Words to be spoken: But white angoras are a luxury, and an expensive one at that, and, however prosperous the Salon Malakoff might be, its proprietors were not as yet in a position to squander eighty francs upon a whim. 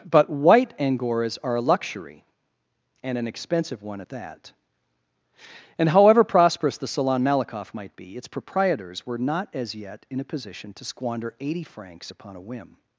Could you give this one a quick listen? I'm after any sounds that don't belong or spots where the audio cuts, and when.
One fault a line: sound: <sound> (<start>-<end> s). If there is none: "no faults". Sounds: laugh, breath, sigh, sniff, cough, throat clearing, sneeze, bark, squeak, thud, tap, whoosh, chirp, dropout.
no faults